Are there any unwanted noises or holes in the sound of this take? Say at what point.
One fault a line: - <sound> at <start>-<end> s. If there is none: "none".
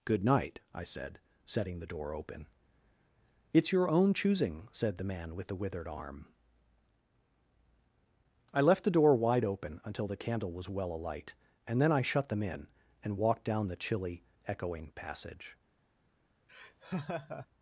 - laugh at 16.5-17.5 s